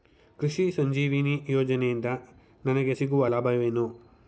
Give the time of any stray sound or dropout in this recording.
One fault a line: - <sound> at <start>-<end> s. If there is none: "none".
none